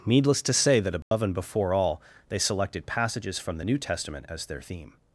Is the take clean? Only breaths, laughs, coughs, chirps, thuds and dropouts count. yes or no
no